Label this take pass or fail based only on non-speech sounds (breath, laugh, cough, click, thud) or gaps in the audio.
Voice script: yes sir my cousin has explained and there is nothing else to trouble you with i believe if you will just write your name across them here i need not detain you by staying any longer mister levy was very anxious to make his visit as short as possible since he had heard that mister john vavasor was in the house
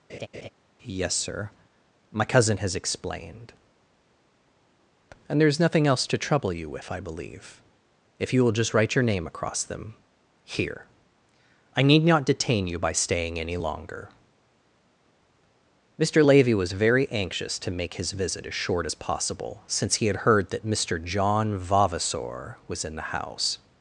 fail